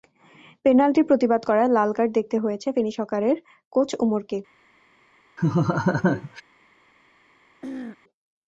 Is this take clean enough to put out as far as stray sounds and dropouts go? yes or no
no